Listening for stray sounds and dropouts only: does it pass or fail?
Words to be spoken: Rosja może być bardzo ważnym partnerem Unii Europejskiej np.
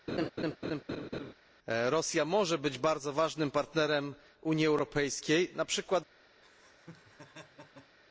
fail